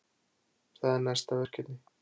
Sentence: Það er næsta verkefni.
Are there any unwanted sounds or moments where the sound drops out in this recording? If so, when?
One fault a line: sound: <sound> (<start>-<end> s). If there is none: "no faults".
no faults